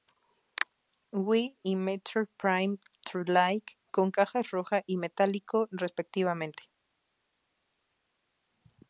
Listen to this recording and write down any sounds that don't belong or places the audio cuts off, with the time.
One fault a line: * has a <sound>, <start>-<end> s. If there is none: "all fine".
all fine